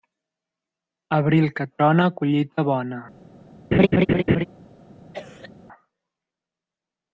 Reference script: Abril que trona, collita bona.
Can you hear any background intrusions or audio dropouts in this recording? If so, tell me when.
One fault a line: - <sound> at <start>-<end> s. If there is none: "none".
- laugh at 3.7-4.5 s
- cough at 5.1-5.5 s